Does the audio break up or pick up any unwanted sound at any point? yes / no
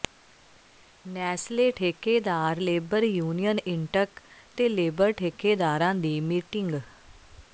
no